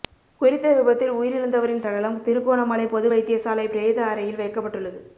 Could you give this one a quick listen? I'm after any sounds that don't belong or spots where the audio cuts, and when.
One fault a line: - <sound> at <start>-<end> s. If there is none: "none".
none